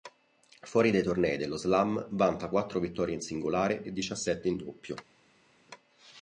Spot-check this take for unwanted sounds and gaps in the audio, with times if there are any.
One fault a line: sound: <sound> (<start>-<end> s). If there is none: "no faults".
no faults